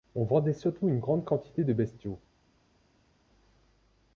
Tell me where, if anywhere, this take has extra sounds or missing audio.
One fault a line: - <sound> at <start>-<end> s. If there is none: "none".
none